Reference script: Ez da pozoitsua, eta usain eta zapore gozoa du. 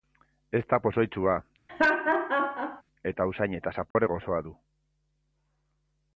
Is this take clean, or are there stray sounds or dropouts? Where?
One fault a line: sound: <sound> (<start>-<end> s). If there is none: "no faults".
sound: laugh (1.7-2.8 s)
sound: dropout (3.9-4.0 s)